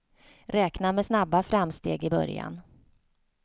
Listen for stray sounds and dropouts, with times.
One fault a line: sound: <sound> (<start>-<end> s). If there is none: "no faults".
no faults